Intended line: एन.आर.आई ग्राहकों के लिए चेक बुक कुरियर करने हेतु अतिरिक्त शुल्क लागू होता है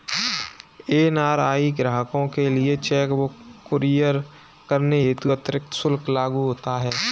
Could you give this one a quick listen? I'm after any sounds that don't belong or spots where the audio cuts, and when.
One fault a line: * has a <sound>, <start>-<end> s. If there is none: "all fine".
all fine